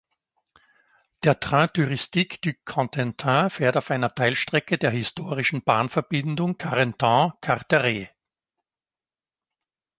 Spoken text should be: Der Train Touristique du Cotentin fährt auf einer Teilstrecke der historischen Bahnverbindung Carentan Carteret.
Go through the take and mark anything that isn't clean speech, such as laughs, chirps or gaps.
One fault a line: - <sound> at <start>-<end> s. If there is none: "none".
none